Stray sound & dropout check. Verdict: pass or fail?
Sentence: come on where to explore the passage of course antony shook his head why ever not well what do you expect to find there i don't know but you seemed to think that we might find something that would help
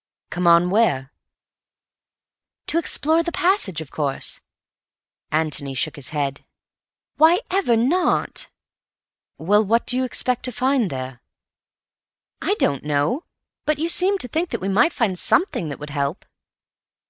pass